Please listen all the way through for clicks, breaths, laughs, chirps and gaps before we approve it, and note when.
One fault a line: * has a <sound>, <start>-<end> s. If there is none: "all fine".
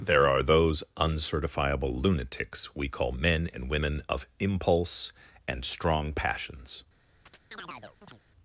* has a chirp, 7.3-8.2 s